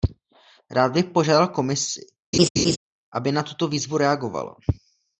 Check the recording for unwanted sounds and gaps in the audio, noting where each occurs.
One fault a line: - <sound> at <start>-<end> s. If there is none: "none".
- laugh at 2.3-2.8 s